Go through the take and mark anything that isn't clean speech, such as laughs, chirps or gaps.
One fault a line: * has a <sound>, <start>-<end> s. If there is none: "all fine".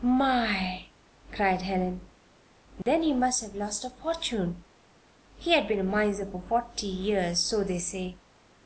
* has a dropout, 2.8-2.9 s